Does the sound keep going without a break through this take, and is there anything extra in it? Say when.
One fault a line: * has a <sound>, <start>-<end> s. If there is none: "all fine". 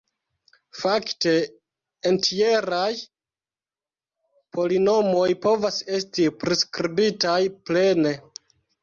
all fine